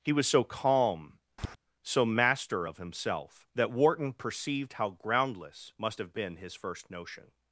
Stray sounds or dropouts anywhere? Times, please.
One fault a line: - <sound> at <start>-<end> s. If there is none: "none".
- tap at 1.4-1.6 s